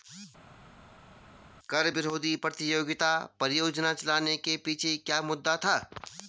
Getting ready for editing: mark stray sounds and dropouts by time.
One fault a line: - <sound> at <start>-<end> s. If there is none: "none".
none